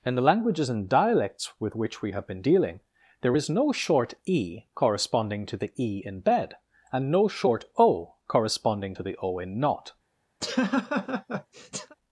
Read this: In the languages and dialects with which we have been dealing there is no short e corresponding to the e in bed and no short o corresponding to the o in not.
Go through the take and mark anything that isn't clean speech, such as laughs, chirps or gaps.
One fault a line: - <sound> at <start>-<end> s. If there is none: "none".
- laugh at 10.4-12.0 s